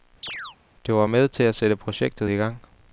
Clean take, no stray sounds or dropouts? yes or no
no